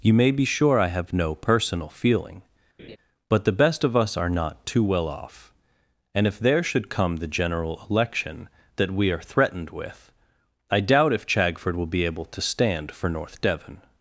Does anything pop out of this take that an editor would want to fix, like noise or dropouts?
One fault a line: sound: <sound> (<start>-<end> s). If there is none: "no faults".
sound: laugh (2.8-3.0 s)